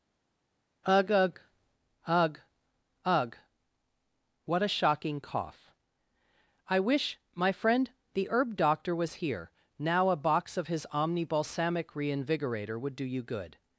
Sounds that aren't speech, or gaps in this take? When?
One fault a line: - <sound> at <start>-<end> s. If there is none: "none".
none